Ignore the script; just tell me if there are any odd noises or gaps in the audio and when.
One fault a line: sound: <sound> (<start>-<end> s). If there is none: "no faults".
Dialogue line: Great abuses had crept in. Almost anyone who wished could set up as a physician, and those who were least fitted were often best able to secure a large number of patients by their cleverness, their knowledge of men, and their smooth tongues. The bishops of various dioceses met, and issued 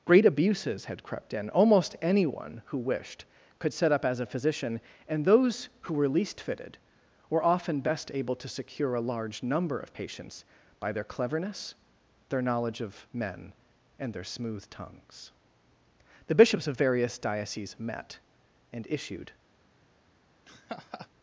sound: laugh (20.4-21.1 s)